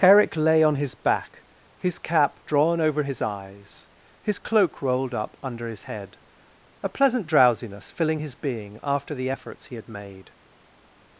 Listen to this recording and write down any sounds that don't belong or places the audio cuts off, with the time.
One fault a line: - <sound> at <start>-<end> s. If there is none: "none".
none